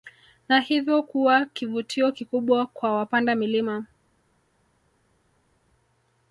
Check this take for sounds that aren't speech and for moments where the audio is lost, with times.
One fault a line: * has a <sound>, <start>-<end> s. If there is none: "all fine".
all fine